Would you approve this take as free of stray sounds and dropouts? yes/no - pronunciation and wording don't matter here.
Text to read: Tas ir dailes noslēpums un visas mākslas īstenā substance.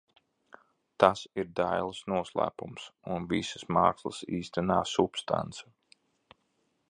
yes